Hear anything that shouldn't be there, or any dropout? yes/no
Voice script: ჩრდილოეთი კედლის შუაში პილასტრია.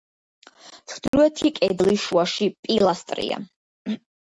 yes